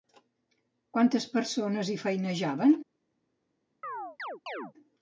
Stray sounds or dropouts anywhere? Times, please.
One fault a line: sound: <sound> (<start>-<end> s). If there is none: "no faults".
sound: chirp (3.8-4.7 s)